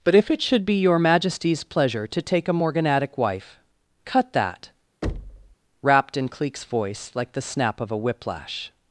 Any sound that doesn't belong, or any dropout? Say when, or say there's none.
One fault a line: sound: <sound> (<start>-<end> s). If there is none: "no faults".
sound: thud (5.0-5.6 s)